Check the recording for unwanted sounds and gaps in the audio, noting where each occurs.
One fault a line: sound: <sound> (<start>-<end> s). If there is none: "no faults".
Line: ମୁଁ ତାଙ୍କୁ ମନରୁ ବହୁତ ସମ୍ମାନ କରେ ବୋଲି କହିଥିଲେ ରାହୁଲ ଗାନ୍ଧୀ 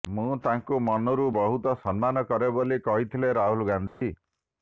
sound: dropout (3.9-4.0 s)